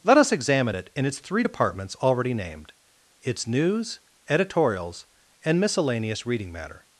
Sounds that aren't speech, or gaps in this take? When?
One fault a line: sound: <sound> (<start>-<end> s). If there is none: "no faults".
no faults